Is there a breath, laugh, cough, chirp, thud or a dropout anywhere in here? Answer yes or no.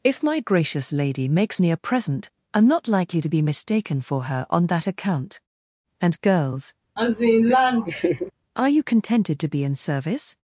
yes